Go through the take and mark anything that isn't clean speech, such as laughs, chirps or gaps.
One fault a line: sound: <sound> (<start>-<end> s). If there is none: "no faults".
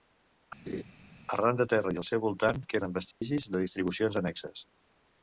sound: laugh (0.7-0.8 s)
sound: dropout (3.1-3.2 s)